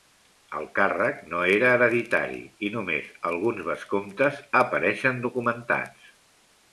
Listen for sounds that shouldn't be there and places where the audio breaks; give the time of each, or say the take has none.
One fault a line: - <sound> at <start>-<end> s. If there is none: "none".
none